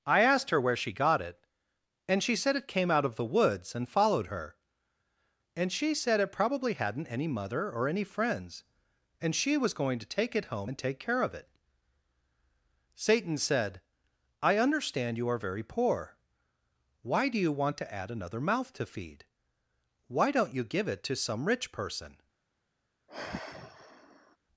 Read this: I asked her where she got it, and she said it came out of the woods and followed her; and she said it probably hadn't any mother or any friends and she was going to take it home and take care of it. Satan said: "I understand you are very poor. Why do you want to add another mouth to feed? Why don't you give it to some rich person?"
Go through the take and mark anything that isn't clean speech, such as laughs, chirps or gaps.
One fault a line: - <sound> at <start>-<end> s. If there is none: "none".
- sigh at 23.1-24.4 s